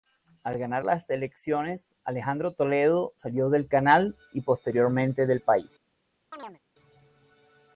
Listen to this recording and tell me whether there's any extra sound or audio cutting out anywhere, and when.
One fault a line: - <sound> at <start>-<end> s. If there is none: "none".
- chirp at 6.3-6.6 s